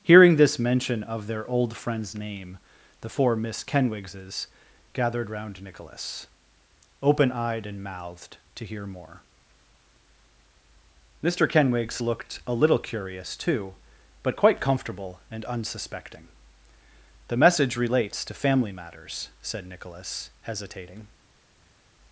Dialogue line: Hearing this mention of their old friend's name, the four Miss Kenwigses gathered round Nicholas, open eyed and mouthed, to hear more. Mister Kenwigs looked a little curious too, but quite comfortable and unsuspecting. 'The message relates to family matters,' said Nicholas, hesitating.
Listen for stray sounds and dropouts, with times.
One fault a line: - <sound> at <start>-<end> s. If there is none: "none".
none